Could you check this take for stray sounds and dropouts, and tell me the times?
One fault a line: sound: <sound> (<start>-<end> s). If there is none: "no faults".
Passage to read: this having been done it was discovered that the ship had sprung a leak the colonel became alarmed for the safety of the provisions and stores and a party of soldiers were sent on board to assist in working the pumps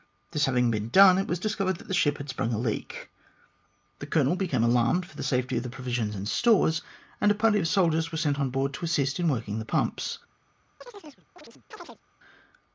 sound: chirp (10.8-12.0 s)